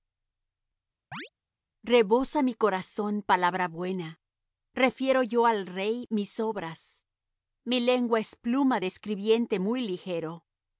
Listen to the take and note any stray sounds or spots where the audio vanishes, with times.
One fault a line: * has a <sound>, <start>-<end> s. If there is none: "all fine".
* has a chirp, 1.1-1.3 s